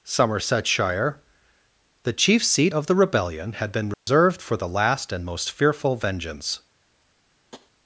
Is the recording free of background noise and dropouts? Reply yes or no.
no